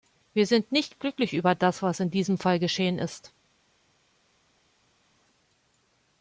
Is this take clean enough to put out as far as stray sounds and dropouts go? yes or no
yes